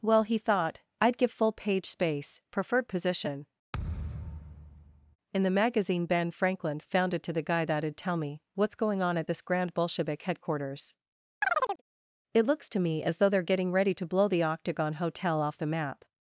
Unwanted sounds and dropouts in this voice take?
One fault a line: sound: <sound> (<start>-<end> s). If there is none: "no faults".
sound: thud (3.7-5.2 s)
sound: chirp (11.4-11.8 s)